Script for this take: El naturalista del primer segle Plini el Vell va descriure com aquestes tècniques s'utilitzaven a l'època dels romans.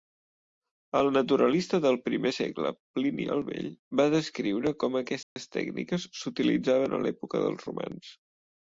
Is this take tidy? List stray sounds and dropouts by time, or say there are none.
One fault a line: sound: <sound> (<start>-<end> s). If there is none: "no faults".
sound: dropout (5.2-5.4 s)